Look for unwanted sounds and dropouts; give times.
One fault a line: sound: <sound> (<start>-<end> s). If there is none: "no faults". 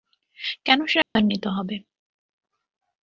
sound: dropout (1.0-1.2 s)